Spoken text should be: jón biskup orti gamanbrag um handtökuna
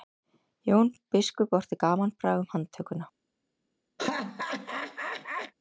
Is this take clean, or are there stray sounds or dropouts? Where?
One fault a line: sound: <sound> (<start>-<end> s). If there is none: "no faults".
sound: laugh (4.0-5.5 s)